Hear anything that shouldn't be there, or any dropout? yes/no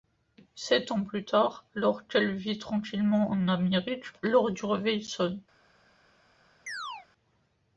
yes